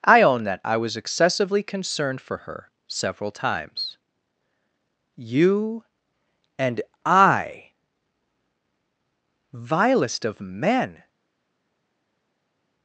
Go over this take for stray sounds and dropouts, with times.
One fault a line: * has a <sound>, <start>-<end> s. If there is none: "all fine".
all fine